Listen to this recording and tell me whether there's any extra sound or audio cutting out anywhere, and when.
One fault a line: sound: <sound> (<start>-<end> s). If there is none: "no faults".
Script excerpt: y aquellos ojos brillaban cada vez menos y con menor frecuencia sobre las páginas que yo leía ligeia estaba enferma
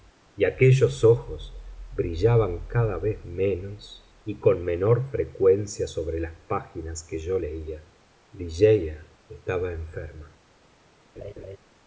sound: laugh (11.2-11.6 s)